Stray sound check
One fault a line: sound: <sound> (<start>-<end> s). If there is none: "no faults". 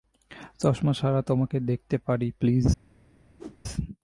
sound: whoosh (3.4-3.6 s)